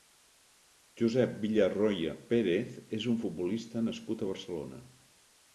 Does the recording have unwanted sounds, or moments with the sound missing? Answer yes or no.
no